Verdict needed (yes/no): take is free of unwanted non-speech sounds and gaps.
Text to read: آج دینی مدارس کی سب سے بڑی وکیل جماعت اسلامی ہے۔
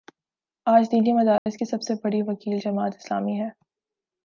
no